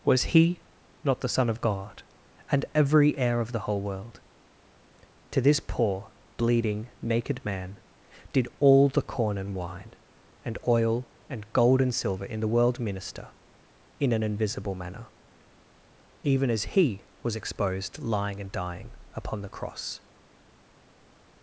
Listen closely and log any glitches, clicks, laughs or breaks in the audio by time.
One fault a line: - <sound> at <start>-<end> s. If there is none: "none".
none